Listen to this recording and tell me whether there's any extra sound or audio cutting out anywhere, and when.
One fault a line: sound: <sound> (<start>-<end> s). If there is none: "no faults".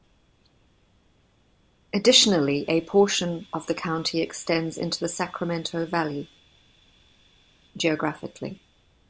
no faults